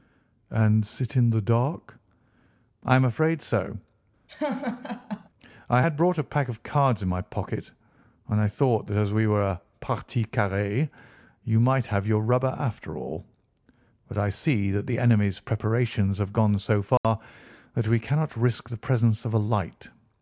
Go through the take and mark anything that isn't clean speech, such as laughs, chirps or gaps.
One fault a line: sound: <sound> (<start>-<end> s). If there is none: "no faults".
sound: laugh (4.3-5.3 s)
sound: dropout (17.0-17.0 s)